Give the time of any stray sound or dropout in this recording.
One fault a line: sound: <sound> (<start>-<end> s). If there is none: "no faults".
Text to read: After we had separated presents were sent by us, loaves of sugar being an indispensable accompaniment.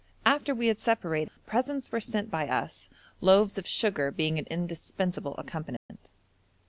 sound: dropout (1.3-1.4 s)
sound: dropout (5.8-5.9 s)